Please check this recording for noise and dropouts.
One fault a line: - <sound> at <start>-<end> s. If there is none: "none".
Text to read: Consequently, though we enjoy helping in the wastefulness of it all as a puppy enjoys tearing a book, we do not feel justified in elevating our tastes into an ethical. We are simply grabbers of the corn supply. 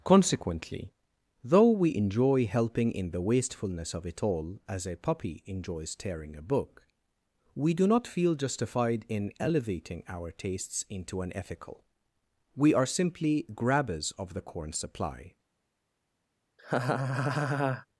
- laugh at 16.6-17.9 s